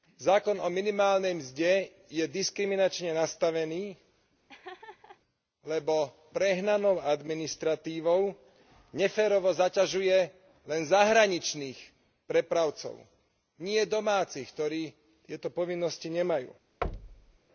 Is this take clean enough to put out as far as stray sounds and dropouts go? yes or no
no